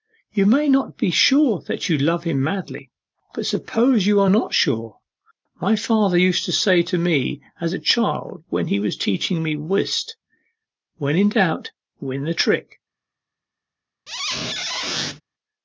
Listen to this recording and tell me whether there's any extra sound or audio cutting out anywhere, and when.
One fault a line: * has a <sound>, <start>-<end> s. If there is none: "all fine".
* has a squeak, 14.1-15.2 s